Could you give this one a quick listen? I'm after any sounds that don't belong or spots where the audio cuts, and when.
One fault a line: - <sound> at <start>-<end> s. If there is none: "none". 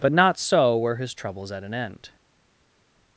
none